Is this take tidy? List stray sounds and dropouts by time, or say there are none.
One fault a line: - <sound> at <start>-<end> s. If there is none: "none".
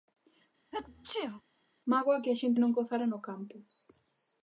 - sneeze at 0.7-1.4 s